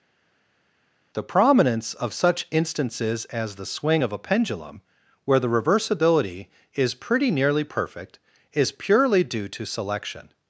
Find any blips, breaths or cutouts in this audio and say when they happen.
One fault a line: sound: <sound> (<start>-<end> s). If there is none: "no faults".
no faults